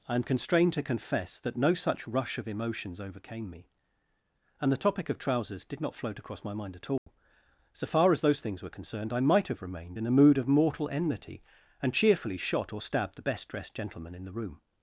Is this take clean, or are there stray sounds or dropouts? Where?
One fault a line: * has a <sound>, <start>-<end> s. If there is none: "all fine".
* has a dropout, 7.0-7.1 s